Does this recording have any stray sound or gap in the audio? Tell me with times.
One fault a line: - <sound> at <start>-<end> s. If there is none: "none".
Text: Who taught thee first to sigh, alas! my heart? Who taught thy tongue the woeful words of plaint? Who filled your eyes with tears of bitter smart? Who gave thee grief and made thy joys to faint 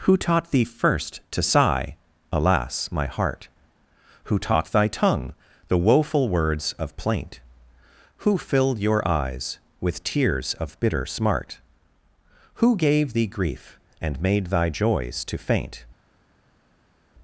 none